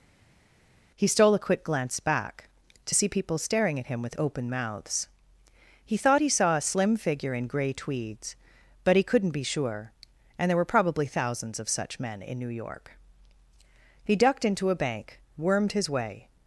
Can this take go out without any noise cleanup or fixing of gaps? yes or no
yes